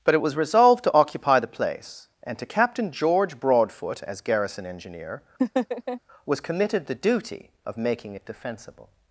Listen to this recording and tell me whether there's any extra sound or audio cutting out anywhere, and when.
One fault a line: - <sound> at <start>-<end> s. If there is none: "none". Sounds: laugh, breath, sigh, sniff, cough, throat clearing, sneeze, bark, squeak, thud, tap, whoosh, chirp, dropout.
- laugh at 5.4-6.0 s